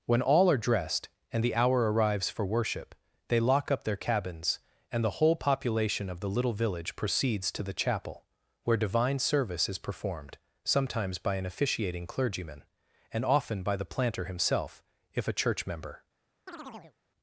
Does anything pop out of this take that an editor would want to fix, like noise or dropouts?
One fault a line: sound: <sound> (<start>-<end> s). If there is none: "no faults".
sound: chirp (16.5-17.0 s)